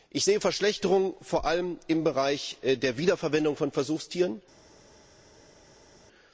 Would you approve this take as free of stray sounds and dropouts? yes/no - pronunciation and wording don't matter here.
yes